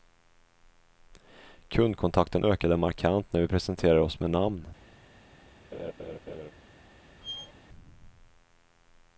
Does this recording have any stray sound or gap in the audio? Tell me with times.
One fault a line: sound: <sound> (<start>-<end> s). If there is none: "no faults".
sound: laugh (5.7-6.5 s)
sound: squeak (7.2-7.5 s)